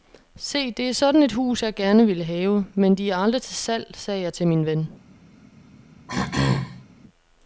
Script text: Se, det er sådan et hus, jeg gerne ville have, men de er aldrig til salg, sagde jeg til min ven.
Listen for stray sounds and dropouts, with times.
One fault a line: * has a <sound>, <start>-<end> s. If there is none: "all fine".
* has a throat clearing, 6.1-6.9 s